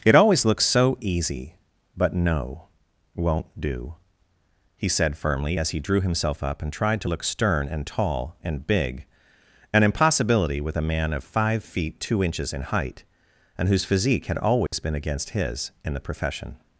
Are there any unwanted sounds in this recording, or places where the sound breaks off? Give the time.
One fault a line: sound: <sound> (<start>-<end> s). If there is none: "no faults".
sound: dropout (14.7-14.7 s)